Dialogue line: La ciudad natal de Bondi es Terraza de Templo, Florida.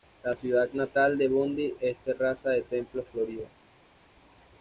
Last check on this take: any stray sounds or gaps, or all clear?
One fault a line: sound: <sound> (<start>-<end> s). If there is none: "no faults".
no faults